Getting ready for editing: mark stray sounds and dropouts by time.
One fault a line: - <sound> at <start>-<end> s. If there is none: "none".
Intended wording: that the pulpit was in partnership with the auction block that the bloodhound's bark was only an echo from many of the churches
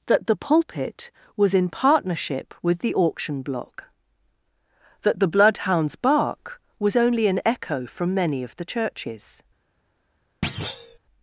- thud at 10.4-11.0 s